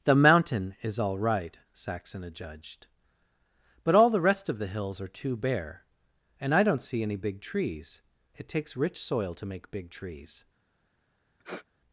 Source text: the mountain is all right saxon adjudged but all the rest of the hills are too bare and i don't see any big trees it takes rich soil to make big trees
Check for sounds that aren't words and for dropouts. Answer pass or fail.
fail